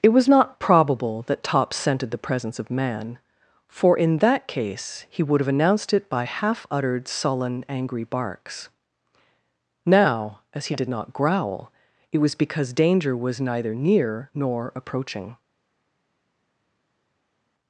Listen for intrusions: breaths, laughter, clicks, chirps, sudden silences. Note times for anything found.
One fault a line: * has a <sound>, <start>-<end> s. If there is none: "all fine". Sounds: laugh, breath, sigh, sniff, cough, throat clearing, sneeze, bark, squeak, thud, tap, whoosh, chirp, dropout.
all fine